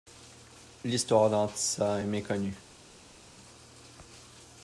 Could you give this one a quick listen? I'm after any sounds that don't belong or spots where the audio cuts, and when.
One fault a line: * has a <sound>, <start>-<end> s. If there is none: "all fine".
all fine